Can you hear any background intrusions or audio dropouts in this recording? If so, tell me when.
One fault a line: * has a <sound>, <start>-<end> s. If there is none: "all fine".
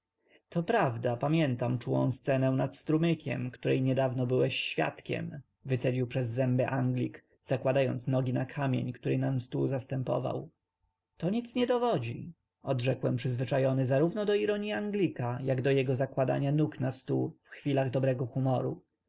all fine